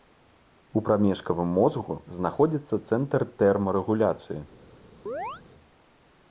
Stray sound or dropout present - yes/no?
yes